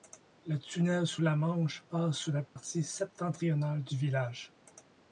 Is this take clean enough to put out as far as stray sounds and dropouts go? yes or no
no